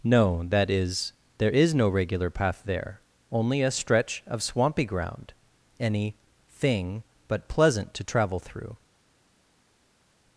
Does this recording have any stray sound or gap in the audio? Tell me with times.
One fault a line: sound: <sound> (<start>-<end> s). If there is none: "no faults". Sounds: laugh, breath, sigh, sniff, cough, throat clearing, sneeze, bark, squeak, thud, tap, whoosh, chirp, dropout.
no faults